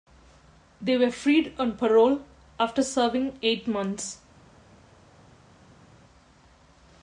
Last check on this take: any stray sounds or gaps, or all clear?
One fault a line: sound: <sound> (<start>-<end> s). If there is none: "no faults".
no faults